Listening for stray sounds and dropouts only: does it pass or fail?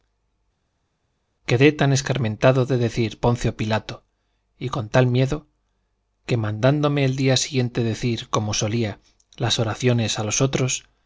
pass